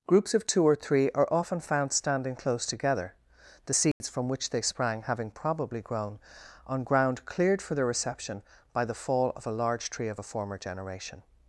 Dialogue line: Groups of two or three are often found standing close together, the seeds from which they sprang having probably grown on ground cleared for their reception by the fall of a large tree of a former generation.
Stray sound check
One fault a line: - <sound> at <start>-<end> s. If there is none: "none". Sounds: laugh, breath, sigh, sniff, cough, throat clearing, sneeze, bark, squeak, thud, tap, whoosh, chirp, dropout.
- dropout at 3.9-4.0 s